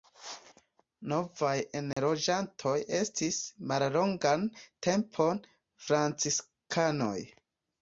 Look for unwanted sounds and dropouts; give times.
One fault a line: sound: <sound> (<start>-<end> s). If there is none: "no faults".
sound: dropout (1.9-2.0 s)